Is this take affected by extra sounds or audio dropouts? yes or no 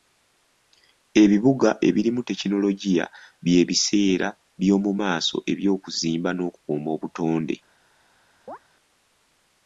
yes